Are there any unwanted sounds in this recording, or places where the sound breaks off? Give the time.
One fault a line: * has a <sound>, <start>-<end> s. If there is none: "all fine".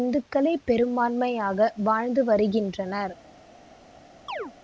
* has a chirp, 4.3-4.5 s